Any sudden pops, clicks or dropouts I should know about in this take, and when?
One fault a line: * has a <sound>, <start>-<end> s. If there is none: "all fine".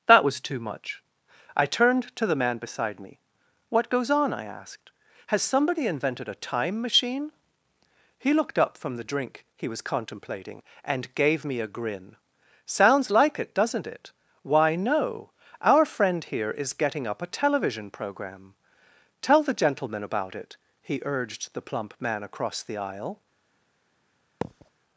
* has a thud, 24.4-24.7 s